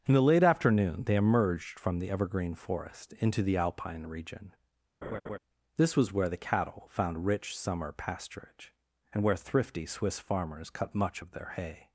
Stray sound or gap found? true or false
true